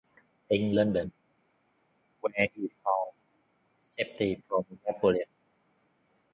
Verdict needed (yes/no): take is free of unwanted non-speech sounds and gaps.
yes